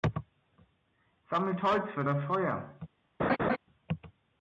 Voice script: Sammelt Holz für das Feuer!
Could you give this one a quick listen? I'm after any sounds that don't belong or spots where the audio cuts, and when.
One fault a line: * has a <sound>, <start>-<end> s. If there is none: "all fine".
* has a laugh, 3.2-3.6 s